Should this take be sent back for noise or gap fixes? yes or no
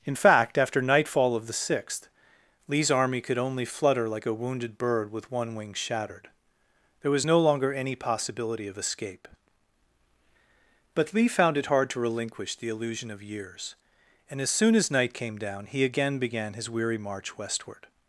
no